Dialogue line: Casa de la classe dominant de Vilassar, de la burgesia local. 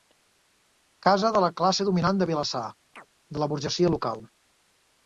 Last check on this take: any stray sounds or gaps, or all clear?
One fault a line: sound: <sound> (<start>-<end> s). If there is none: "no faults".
sound: chirp (2.9-3.1 s)